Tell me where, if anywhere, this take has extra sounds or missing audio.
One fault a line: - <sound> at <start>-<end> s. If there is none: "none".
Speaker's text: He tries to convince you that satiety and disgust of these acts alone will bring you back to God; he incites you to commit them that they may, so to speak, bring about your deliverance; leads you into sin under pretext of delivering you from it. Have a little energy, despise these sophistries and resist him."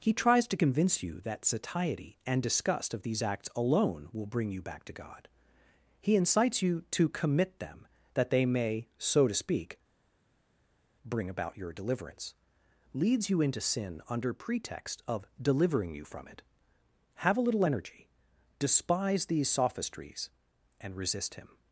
none